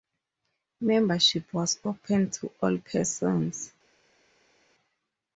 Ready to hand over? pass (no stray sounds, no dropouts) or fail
pass